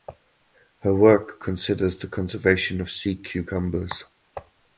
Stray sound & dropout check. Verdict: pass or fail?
pass